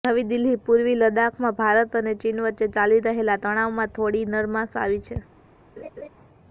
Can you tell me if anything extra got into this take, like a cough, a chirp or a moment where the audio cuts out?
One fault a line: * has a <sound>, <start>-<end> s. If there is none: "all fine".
* has a laugh, 5.8-6.1 s